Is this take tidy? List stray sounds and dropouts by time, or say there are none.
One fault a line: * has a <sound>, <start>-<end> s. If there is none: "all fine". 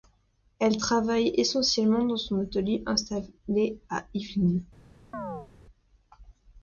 * has a chirp, 5.1-5.5 s